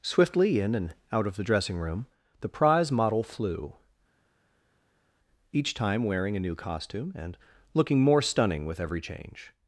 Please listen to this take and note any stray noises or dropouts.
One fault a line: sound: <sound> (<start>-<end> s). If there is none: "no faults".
no faults